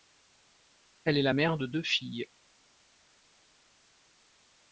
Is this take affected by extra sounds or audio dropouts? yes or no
no